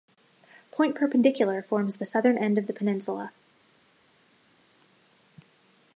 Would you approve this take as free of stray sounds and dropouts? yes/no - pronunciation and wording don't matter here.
yes